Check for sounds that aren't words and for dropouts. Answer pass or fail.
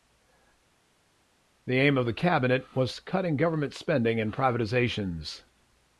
pass